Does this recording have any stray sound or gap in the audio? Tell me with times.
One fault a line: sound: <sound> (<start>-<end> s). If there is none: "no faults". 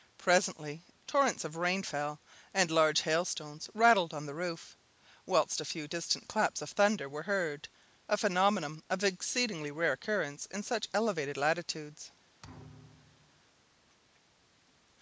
sound: thud (12.4-13.4 s)